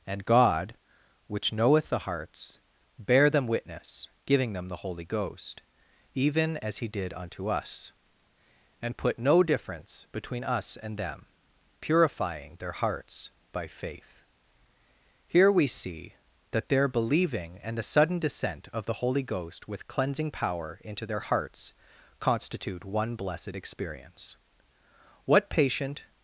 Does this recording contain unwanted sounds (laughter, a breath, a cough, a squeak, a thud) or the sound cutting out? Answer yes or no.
no